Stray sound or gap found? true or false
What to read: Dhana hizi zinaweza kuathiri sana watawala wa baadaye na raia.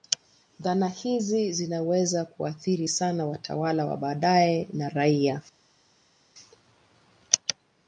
false